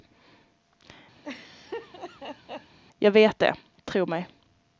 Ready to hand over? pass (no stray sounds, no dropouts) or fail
fail